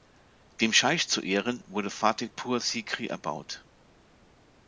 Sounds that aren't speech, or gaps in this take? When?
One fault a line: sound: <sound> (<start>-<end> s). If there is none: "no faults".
no faults